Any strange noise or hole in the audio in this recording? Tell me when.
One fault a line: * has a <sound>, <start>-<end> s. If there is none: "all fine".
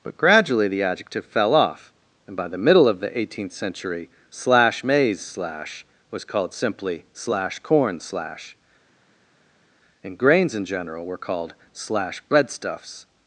all fine